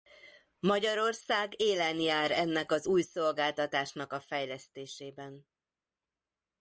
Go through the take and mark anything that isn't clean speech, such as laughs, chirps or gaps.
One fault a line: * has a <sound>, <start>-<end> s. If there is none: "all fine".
all fine